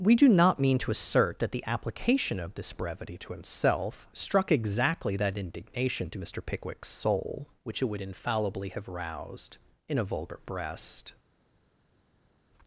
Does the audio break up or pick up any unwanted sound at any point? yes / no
no